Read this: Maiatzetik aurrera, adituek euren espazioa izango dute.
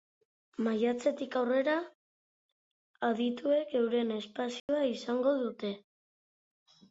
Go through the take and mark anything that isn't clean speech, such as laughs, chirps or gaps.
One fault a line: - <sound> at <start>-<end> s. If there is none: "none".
- dropout at 4.6-4.7 s